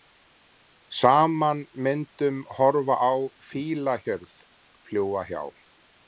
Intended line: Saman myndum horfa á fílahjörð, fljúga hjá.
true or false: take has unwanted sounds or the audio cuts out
false